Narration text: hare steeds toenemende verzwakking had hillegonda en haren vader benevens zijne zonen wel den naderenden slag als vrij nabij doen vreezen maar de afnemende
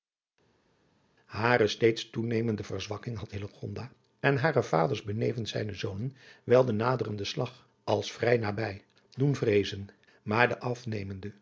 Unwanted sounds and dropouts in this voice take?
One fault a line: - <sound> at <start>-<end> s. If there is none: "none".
none